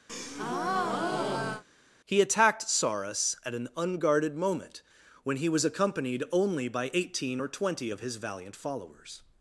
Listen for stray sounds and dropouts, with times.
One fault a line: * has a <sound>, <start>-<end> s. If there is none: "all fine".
* has a breath, 0.1-1.6 s